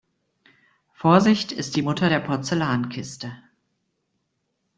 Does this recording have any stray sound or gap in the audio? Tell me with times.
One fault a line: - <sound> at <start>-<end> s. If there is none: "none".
none